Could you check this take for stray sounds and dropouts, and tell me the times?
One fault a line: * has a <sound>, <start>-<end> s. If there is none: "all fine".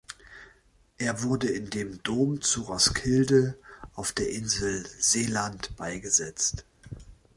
all fine